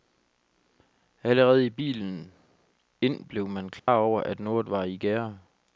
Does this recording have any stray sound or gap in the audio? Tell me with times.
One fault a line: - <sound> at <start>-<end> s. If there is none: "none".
- dropout at 3.8-3.9 s